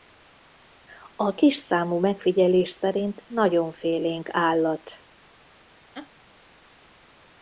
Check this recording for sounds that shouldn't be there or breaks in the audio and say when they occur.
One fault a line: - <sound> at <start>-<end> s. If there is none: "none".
- laugh at 5.9-6.1 s